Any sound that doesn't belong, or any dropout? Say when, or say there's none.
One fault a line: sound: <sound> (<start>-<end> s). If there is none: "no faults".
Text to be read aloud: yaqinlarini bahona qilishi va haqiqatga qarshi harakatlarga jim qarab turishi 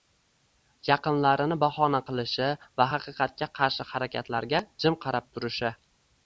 no faults